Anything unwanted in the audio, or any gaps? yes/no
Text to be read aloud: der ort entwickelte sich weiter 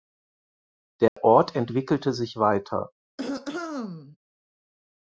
yes